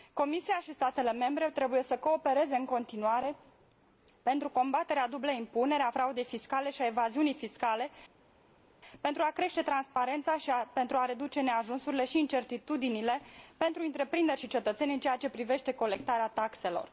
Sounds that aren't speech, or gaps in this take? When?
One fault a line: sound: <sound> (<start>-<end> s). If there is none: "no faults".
no faults